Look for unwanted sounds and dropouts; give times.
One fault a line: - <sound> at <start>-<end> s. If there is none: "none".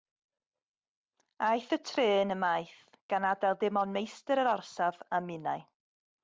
none